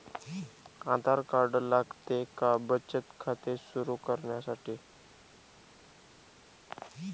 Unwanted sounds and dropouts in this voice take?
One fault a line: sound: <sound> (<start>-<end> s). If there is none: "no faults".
no faults